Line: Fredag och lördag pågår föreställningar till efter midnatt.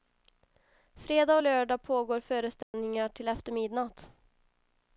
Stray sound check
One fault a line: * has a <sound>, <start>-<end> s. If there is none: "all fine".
* has a dropout, 2.6-2.7 s